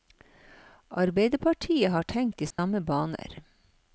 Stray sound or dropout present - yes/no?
yes